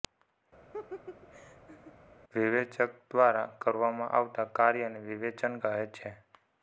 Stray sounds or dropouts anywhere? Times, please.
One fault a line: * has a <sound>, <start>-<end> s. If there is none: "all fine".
* has a laugh, 0.7-1.9 s